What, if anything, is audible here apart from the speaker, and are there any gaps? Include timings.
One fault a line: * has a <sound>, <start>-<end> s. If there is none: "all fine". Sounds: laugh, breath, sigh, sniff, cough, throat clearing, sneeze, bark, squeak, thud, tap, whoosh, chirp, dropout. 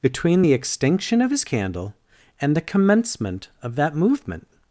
all fine